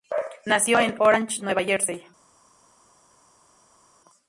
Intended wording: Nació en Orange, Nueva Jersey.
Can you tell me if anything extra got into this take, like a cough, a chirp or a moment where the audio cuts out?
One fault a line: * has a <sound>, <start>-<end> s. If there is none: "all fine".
all fine